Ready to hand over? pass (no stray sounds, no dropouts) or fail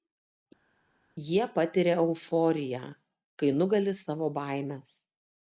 pass